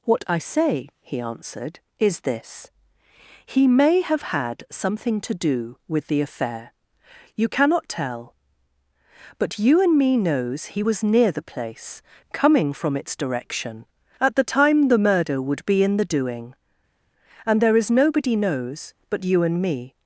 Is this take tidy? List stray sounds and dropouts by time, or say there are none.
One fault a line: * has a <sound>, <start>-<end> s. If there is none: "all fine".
all fine